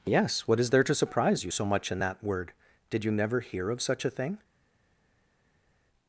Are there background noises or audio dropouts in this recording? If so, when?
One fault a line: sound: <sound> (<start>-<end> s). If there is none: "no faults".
no faults